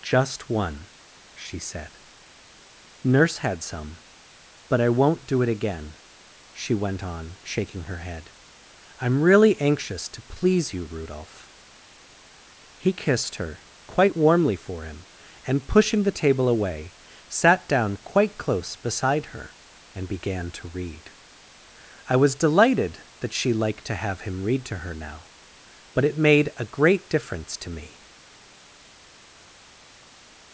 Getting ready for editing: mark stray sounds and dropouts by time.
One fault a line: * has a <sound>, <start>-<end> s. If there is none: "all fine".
all fine